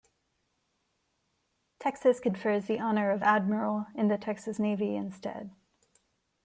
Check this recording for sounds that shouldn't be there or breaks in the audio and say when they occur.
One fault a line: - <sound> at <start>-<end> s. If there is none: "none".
none